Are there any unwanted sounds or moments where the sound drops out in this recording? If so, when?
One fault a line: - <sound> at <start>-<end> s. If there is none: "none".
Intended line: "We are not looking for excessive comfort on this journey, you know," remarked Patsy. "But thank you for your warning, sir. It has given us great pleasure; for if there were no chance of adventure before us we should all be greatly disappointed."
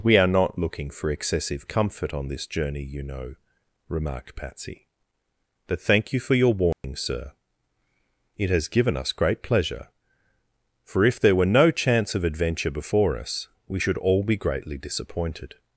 - dropout at 6.7-6.8 s